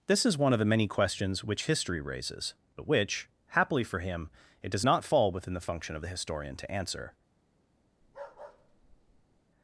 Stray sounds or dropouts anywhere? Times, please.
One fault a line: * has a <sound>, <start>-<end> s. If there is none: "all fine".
* has a bark, 8.0-9.4 s